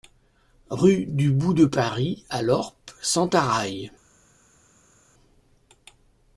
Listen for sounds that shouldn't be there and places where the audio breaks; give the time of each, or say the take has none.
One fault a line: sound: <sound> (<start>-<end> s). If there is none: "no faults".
no faults